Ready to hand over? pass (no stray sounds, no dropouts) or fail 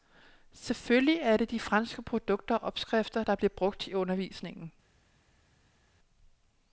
pass